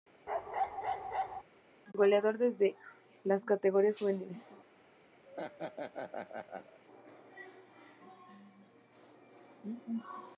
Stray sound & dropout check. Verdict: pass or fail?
fail